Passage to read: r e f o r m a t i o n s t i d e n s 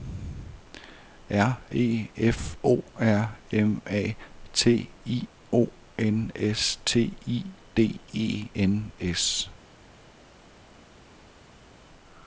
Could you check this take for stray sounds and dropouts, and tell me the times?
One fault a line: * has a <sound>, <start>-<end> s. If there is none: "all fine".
all fine